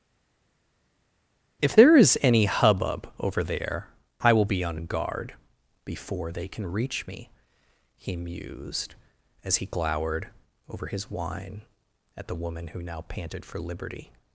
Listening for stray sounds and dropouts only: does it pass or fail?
pass